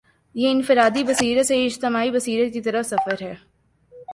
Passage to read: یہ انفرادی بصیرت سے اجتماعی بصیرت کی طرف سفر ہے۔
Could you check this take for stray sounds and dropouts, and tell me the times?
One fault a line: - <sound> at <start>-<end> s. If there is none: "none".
none